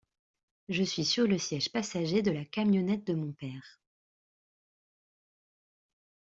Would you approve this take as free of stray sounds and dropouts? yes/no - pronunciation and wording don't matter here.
yes